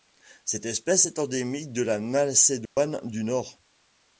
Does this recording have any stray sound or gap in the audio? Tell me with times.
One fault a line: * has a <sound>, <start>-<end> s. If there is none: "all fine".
* has a dropout, 2.7-2.8 s